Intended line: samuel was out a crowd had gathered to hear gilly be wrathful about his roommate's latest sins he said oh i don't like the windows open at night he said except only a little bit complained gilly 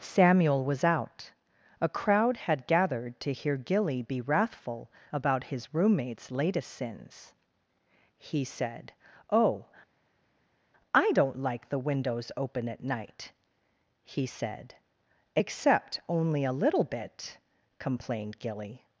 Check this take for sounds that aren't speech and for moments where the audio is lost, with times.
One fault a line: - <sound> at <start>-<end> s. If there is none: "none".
none